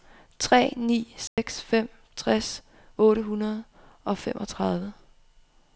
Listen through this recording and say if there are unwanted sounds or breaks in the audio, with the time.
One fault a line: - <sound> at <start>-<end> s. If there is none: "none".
- dropout at 1.3-1.4 s